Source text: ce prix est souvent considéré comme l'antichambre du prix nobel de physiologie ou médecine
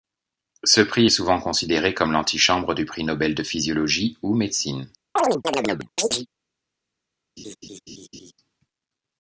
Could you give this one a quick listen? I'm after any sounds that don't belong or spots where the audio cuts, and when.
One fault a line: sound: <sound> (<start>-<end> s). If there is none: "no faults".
sound: chirp (5.2-6.3 s)
sound: laugh (7.4-8.3 s)